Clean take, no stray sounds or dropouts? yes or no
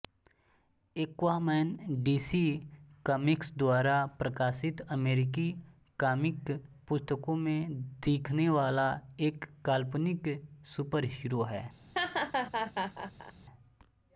no